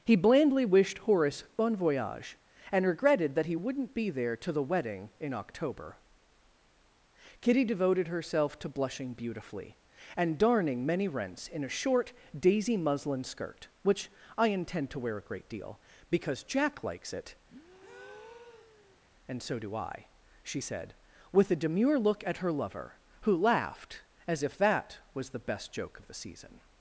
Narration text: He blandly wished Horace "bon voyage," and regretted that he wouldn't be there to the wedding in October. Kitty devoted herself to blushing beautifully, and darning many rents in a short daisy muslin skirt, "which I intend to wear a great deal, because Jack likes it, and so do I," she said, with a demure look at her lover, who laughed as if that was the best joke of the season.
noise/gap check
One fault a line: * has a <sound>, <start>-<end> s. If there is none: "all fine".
* has a breath, 17.5-19.0 s